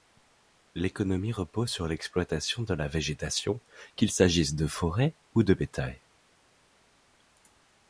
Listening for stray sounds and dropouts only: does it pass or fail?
pass